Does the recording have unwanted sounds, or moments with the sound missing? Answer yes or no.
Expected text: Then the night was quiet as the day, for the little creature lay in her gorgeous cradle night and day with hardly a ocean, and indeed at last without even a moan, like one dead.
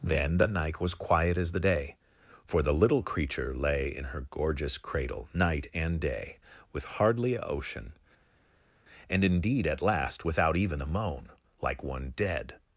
no